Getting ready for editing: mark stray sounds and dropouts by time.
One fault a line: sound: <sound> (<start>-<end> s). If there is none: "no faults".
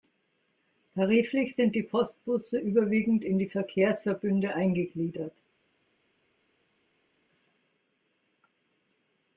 no faults